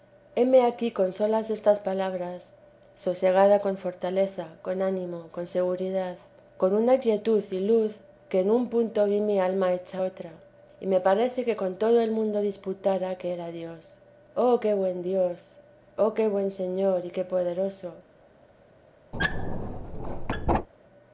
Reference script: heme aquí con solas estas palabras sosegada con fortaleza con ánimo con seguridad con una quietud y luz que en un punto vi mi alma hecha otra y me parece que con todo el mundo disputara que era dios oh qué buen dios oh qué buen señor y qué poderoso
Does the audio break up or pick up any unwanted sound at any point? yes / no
yes